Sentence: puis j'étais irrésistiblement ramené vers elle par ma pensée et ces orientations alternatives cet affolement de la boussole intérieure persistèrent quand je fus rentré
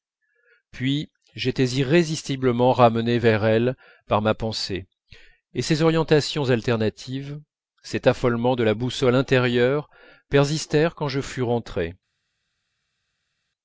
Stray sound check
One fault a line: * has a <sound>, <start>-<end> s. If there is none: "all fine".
all fine